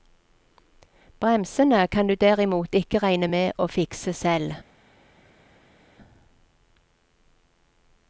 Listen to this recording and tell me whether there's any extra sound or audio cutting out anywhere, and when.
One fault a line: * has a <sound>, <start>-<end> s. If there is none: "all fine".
all fine